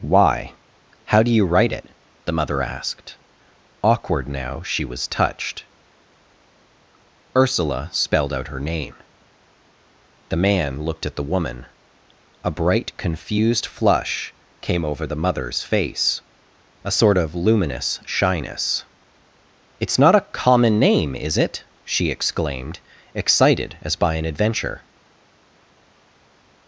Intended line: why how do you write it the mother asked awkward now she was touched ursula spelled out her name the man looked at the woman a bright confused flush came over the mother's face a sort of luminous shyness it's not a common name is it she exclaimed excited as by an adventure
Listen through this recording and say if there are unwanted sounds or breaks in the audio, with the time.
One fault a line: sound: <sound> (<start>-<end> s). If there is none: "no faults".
no faults